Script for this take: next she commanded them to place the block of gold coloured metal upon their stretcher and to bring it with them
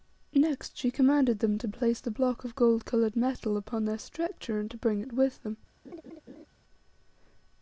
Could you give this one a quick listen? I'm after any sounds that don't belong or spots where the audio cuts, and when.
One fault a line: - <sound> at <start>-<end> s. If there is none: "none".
- laugh at 5.8-6.5 s